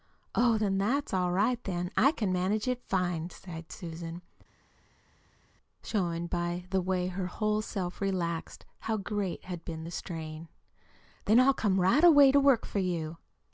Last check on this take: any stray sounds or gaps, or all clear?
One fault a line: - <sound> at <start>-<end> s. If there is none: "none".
none